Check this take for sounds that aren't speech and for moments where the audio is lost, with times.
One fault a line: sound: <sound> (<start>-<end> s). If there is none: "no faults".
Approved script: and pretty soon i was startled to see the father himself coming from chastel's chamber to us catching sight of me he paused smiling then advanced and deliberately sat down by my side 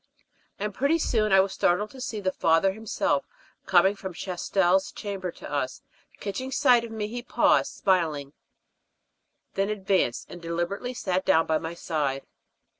no faults